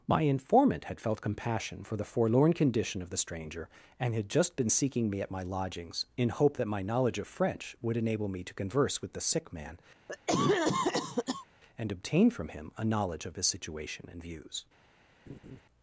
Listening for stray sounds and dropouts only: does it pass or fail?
fail